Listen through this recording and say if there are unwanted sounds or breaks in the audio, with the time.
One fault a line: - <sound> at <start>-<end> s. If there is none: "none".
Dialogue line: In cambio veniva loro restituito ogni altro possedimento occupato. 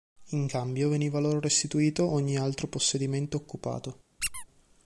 - squeak at 4.2-4.5 s